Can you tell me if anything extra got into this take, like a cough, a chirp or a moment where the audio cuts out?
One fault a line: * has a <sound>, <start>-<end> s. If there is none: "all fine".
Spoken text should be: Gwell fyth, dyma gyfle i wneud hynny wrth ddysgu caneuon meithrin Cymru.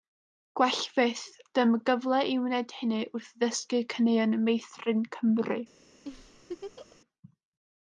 * has a laugh, 6.0-7.0 s